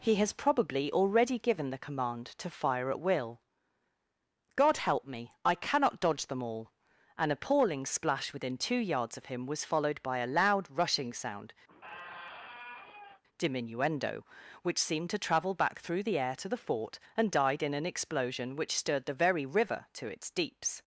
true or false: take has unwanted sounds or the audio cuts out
true